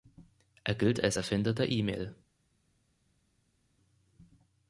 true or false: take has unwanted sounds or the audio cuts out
false